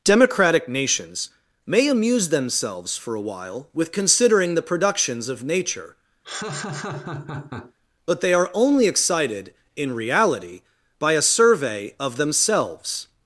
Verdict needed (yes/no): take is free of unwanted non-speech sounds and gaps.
no